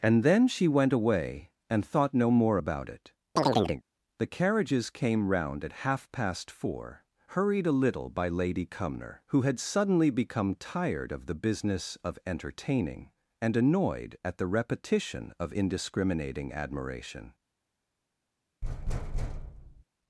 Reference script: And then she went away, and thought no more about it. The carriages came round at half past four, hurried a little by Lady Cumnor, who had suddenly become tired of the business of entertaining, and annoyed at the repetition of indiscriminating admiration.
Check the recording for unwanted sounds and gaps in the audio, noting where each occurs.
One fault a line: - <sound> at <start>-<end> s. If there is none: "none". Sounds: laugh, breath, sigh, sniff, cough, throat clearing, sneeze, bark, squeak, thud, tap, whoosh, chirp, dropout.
- chirp at 3.4-3.8 s
- thud at 18.6-19.8 s